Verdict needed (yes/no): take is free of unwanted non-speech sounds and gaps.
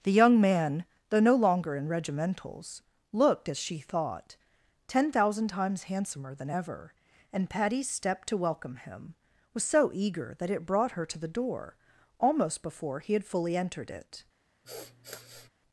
no